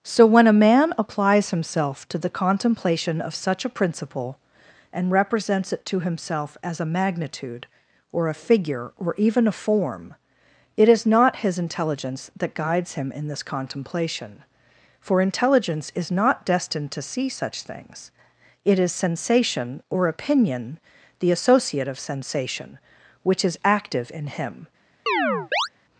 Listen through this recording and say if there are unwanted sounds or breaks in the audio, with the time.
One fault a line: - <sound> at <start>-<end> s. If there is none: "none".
- chirp at 25.1-25.7 s